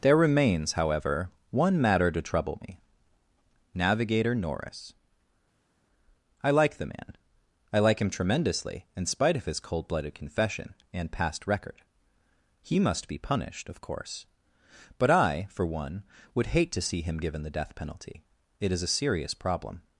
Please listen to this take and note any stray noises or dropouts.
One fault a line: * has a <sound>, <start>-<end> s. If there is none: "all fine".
all fine